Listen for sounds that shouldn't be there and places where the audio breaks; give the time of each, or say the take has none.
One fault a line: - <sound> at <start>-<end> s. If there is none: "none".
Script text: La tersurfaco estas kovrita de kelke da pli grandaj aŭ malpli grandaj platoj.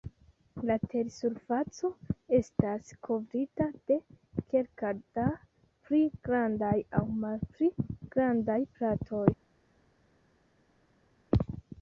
none